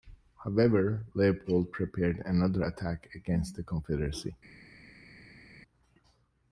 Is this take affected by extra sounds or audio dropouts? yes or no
no